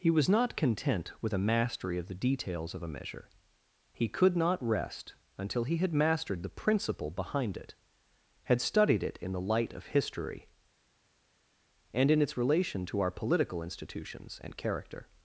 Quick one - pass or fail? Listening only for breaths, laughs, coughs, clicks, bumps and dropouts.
pass